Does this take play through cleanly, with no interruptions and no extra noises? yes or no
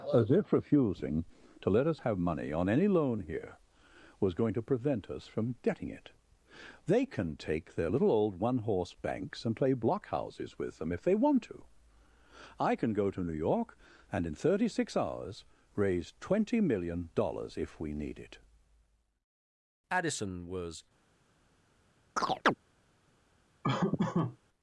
no